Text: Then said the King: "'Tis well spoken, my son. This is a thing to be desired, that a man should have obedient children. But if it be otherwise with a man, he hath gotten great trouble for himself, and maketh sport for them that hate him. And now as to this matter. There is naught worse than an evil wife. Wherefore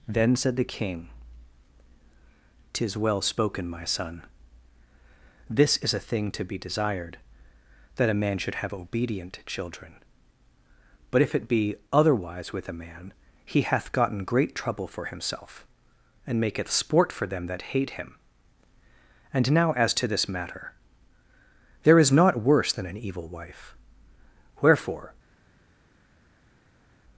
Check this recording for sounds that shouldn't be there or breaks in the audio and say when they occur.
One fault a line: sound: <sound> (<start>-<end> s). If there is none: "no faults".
no faults